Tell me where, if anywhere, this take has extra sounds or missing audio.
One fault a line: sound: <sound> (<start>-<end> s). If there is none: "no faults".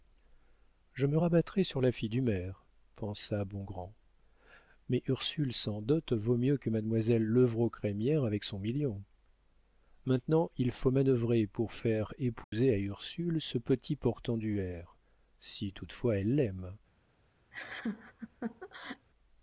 sound: dropout (12.4-12.5 s)
sound: laugh (17.5-19.1 s)